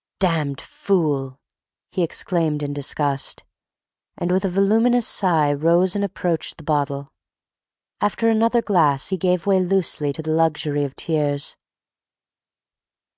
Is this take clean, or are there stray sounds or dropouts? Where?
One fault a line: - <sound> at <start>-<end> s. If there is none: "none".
none